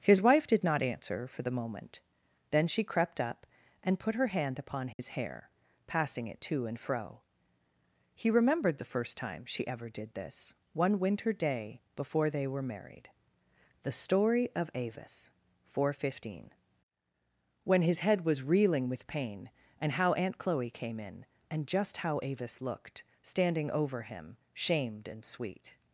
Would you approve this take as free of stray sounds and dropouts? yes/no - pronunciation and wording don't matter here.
no